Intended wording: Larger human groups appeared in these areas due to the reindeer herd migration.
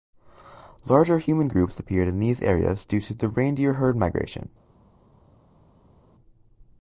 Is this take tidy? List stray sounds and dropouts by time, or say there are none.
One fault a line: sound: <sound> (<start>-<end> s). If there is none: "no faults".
no faults